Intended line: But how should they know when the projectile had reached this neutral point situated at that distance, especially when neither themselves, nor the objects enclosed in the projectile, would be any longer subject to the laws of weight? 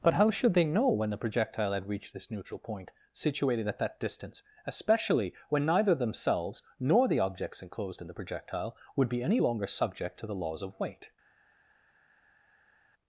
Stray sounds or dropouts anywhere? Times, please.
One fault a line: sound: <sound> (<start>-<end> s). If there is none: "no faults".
no faults